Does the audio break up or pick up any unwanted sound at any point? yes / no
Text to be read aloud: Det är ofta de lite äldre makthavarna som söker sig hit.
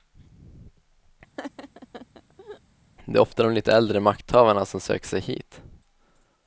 yes